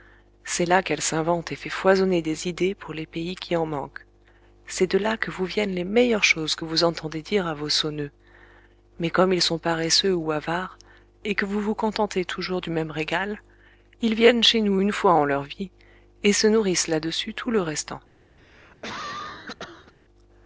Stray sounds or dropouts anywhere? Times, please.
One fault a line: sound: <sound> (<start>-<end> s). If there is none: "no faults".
sound: cough (18.4-19.9 s)